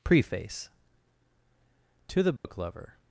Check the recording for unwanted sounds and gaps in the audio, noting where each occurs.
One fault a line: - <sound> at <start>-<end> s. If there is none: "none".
- dropout at 2.4-2.4 s